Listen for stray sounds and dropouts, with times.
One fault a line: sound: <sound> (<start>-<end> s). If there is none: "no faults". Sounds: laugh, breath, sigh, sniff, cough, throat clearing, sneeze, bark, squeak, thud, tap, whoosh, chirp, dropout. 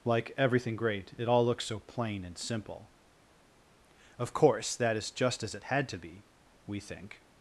no faults